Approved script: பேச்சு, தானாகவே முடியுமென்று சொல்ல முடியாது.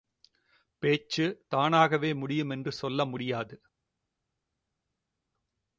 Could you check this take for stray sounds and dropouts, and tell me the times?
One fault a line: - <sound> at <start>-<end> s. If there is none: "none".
none